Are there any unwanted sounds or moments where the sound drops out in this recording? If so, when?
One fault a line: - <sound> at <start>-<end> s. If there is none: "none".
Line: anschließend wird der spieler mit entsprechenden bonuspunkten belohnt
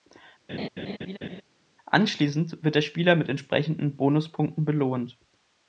- laugh at 0.5-1.4 s